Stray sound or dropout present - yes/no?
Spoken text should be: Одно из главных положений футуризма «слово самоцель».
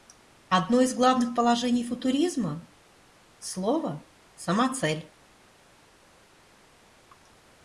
no